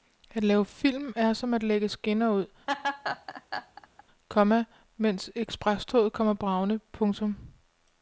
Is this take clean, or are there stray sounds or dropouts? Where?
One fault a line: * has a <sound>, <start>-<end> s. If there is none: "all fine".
* has a laugh, 2.7-4.0 s